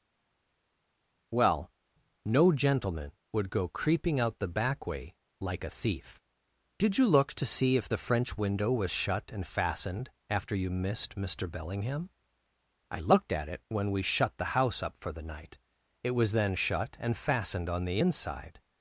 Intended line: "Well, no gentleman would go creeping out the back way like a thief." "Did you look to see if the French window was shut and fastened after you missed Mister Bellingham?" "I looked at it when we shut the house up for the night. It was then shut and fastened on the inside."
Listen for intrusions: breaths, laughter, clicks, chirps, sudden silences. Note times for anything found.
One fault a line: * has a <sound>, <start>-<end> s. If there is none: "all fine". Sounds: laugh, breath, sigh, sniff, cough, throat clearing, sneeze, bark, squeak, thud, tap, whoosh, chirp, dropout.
all fine